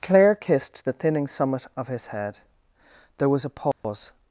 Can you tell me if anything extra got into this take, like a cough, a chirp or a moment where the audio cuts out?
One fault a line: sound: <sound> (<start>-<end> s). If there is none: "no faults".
sound: dropout (3.7-3.8 s)